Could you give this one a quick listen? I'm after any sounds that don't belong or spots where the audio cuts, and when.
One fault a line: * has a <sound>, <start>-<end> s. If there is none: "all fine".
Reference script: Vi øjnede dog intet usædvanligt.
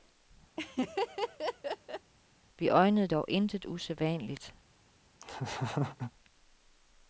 * has a laugh, 0.6-2.1 s
* has a laugh, 5.2-6.1 s